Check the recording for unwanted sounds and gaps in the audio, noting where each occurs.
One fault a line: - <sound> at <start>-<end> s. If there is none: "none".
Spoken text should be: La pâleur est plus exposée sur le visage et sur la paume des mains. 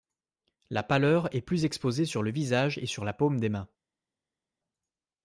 none